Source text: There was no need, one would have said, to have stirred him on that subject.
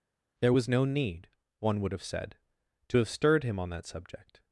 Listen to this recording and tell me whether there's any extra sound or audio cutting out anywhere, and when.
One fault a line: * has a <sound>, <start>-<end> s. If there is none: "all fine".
all fine